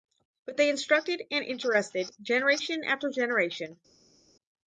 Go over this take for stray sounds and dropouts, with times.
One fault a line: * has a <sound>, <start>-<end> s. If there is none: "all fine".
all fine